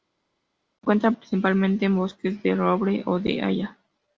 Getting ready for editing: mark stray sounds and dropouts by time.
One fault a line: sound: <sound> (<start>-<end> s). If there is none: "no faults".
no faults